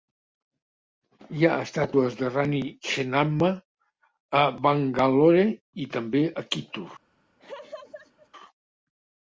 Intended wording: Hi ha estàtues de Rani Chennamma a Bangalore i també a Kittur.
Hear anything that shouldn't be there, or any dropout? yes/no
yes